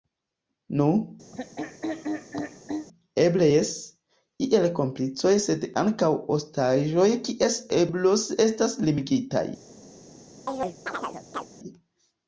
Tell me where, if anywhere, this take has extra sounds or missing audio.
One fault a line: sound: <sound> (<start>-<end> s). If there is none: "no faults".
sound: throat clearing (1.3-2.9 s)
sound: chirp (10.5-11.5 s)